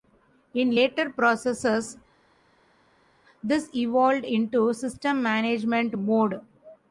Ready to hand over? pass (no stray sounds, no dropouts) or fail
pass